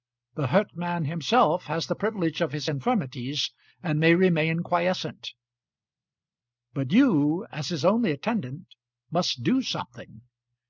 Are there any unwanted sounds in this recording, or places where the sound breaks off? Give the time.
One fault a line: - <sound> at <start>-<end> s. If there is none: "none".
none